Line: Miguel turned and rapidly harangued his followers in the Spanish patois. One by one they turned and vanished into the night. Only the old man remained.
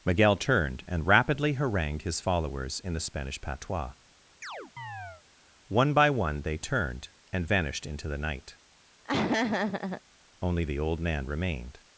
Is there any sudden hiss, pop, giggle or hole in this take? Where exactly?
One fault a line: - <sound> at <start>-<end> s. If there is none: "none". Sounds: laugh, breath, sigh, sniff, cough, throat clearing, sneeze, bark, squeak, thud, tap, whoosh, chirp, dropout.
- chirp at 4.4-5.2 s
- laugh at 9.0-10.0 s